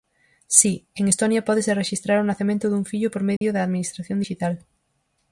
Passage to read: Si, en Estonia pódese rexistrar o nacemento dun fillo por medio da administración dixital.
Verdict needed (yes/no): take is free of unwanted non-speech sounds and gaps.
no